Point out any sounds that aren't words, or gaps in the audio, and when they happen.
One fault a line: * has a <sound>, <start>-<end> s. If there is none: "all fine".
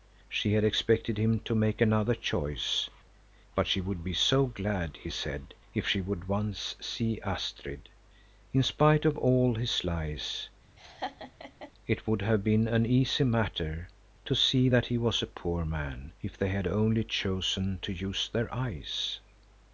* has a laugh, 10.8-11.7 s